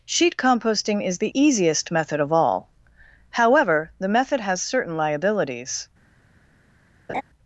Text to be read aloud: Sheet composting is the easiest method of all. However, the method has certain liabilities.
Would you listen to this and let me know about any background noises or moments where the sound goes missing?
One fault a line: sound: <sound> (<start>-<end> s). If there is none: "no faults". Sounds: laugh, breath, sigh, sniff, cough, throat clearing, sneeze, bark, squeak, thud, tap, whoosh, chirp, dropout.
sound: laugh (7.1-7.2 s)